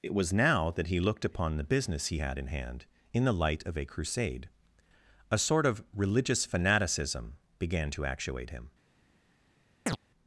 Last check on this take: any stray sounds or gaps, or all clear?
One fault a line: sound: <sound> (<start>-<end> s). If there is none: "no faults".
sound: chirp (9.9-10.0 s)